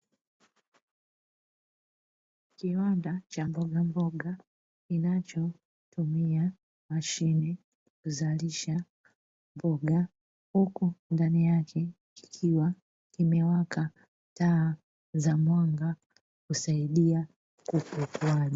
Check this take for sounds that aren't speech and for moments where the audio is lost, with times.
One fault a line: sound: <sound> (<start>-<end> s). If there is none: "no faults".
no faults